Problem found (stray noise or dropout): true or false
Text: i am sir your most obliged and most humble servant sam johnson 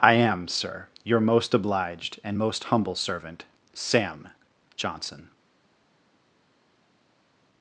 false